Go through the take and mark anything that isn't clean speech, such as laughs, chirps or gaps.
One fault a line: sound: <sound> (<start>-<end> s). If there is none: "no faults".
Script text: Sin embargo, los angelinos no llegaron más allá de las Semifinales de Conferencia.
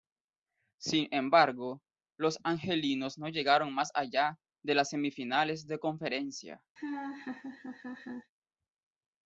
sound: laugh (6.8-8.3 s)